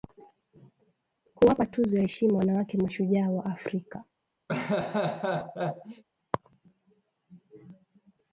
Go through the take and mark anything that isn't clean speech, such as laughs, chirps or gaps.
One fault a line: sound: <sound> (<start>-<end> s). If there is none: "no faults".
sound: laugh (4.5-6.0 s)